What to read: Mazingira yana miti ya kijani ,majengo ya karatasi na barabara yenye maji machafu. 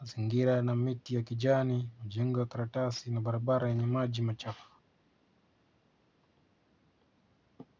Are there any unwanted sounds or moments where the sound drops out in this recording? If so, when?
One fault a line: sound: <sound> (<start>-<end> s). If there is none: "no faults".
no faults